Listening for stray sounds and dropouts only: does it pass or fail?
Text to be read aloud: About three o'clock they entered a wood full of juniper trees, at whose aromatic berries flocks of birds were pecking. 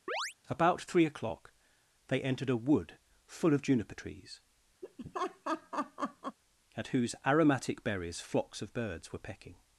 fail